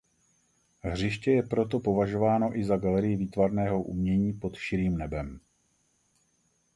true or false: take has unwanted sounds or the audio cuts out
false